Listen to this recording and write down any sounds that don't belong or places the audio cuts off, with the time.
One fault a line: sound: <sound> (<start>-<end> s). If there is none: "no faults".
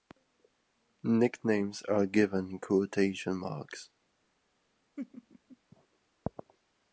sound: laugh (5.0-5.6 s)